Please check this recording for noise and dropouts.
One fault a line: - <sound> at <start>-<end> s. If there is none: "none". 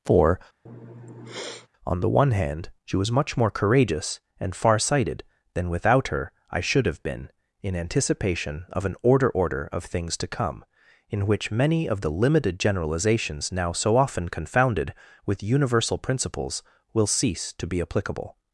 - sniff at 0.7-1.7 s